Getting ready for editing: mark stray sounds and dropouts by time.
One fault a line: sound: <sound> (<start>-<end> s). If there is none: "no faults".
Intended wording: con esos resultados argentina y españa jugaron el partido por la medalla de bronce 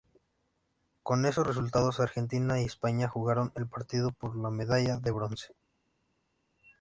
no faults